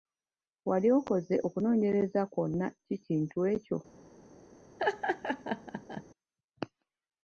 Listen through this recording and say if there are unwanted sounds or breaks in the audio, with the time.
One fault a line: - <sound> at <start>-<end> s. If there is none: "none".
- laugh at 4.8-6.0 s